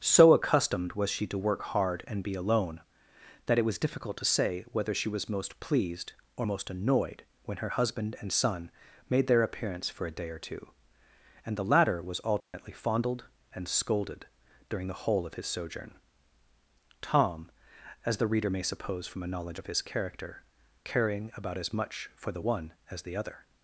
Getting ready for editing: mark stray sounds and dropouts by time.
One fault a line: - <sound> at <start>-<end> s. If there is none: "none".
- dropout at 12.4-12.5 s